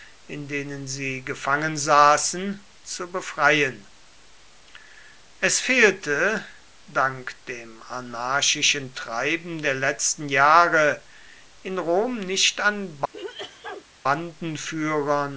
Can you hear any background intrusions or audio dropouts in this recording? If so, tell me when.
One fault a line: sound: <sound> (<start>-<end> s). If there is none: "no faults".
sound: sneeze (13.1-13.9 s)